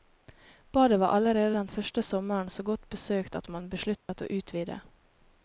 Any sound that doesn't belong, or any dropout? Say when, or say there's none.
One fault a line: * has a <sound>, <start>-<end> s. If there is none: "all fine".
* has a dropout, 4.0-4.1 s